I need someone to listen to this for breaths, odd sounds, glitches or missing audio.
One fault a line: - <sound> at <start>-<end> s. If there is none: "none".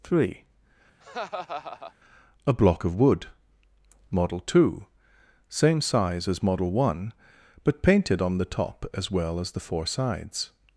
- laugh at 1.0-1.9 s